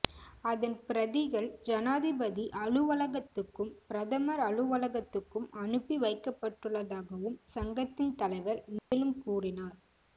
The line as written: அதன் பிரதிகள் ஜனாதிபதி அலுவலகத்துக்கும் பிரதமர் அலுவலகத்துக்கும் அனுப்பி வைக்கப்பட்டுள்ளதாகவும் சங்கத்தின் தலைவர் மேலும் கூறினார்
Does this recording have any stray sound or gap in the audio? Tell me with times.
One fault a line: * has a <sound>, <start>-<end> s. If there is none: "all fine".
* has a dropout, 8.8-8.9 s